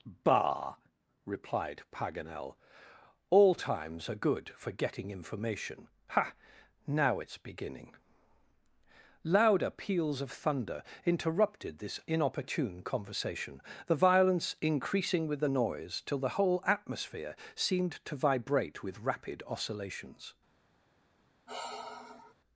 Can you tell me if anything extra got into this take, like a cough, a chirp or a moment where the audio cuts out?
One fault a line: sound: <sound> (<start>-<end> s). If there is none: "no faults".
sound: sigh (21.5-22.3 s)